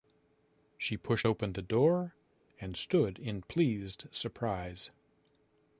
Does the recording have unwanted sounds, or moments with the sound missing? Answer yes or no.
no